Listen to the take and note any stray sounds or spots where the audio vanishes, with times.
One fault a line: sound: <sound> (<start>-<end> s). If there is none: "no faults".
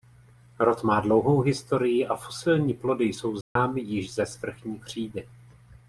sound: dropout (3.4-3.6 s)